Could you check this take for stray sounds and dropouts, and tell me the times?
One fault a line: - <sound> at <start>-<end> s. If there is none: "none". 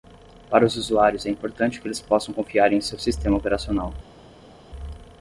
none